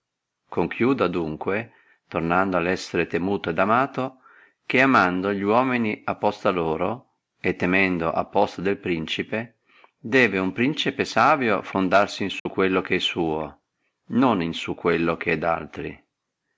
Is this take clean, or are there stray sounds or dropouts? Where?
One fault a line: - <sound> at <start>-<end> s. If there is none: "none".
- dropout at 12.4-12.5 s